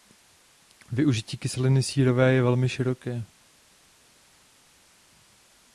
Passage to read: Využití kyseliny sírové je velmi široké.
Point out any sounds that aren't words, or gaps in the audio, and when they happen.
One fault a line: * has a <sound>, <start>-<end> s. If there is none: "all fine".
all fine